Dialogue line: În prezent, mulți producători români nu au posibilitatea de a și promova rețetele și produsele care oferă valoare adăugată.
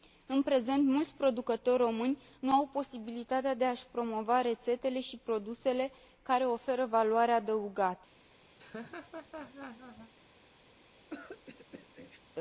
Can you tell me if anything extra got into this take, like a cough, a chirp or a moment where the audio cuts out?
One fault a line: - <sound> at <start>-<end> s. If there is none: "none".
- laugh at 8.6-10.1 s
- throat clearing at 11.1-12.2 s